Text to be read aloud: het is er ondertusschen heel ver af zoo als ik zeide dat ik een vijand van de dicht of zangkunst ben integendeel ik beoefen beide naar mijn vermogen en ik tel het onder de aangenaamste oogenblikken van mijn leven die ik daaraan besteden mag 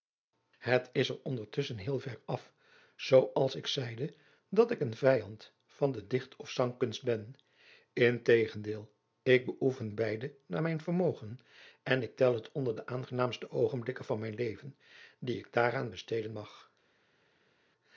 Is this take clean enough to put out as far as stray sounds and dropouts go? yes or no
yes